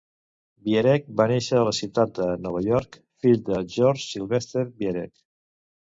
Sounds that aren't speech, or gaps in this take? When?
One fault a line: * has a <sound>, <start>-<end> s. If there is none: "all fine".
all fine